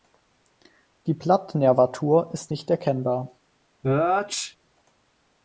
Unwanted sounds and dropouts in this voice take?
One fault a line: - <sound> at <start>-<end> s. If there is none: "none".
- sneeze at 3.8-4.6 s